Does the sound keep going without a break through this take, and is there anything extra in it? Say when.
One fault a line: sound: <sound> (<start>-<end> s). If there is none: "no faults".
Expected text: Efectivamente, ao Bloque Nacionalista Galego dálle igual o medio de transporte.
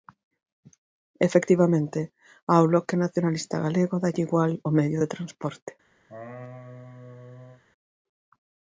sound: laugh (6.1-7.6 s)